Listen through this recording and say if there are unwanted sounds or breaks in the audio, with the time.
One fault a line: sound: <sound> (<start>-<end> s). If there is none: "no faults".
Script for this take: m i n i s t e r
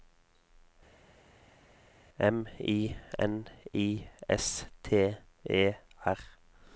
no faults